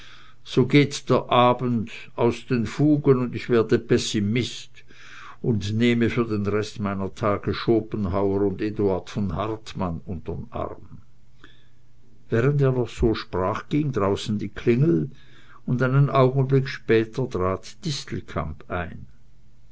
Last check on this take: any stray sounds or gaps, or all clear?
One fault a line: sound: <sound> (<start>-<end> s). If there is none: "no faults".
no faults